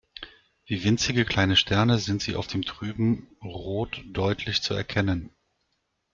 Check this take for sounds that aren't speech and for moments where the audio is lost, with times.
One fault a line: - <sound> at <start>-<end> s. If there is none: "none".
none